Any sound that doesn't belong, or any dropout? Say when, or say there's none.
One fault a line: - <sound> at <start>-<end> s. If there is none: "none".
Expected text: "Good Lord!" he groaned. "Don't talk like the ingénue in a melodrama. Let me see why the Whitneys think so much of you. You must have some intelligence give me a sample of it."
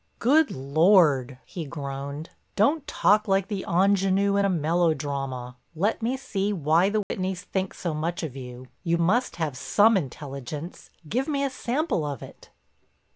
- dropout at 7.0-7.1 s